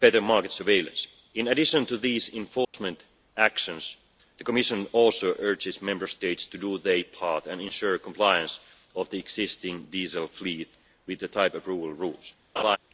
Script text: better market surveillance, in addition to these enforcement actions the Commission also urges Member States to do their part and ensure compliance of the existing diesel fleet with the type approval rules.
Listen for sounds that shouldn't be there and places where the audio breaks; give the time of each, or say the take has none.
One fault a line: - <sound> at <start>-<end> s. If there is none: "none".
- dropout at 2.6-2.7 s
- laugh at 12.6-12.8 s